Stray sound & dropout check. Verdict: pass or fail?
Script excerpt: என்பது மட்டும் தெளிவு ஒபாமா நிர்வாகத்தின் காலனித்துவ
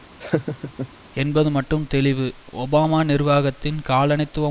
fail